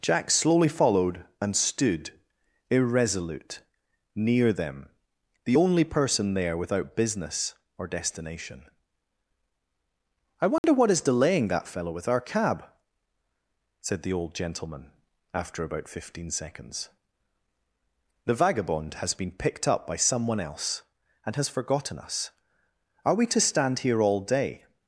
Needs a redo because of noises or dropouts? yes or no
yes